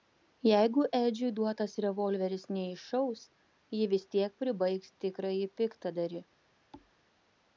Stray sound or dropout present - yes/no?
yes